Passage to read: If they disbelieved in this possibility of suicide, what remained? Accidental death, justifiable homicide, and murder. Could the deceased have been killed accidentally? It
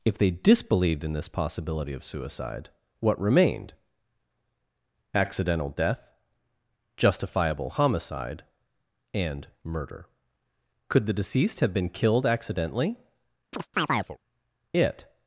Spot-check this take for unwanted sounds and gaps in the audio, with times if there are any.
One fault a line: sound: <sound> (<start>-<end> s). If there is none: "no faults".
sound: chirp (13.5-14.2 s)